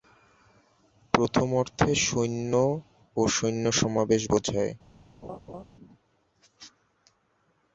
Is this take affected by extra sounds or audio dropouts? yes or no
yes